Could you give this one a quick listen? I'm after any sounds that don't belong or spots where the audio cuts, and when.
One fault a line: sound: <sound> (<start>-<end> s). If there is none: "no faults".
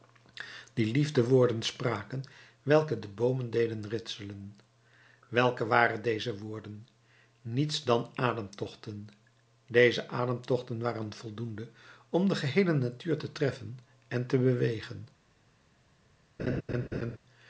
sound: laugh (16.4-17.2 s)